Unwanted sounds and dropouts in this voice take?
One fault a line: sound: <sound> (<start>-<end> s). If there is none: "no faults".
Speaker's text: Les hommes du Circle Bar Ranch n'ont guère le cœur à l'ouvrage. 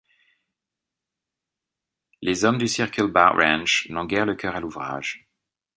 no faults